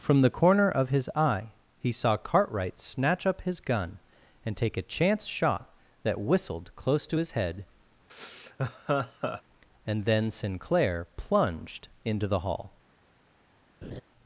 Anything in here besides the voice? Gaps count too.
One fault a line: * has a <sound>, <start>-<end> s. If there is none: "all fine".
* has a laugh, 8.1-9.4 s
* has a laugh, 13.8-14.0 s